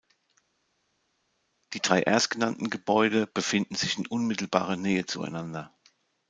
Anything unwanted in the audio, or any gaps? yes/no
no